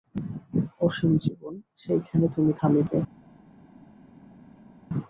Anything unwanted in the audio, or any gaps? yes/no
no